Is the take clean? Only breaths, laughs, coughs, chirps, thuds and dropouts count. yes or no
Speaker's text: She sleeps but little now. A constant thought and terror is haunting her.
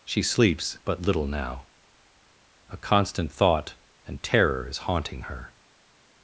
yes